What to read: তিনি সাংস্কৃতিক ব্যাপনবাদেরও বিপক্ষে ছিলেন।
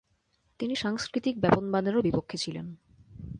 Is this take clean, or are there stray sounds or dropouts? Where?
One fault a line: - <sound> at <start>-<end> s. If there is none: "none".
none